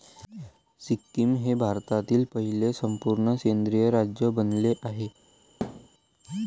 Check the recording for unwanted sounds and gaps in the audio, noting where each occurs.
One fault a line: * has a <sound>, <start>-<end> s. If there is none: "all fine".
* has a thud, 5.6-5.9 s